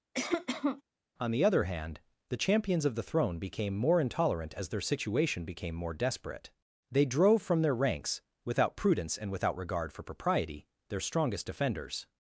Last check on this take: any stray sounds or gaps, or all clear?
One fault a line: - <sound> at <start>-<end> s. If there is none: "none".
- cough at 0.1-0.8 s